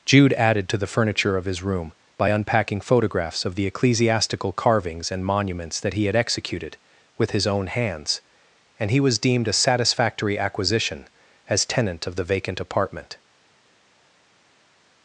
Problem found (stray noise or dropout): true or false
false